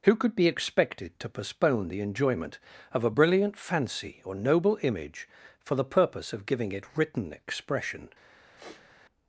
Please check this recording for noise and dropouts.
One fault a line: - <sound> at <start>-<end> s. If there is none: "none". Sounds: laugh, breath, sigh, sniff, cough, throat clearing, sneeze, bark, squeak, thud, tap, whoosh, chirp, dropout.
- sniff at 8.6-8.9 s